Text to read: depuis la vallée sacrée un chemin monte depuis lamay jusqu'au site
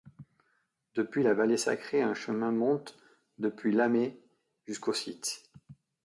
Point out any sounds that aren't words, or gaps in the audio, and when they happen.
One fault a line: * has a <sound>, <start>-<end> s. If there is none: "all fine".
all fine